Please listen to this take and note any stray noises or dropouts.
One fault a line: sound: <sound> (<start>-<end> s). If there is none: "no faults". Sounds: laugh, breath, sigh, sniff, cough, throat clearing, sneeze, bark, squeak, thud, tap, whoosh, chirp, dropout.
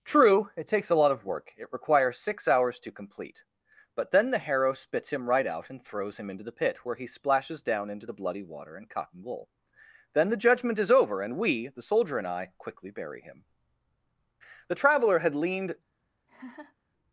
sound: laugh (16.3-16.8 s)